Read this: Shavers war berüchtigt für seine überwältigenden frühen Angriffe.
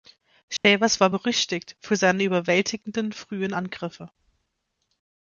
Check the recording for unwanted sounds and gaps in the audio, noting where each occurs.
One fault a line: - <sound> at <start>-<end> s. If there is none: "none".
- dropout at 0.6-0.6 s